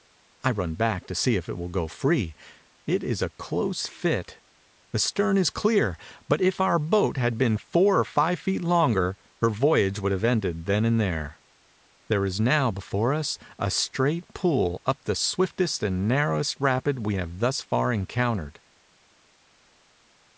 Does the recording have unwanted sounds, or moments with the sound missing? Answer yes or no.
no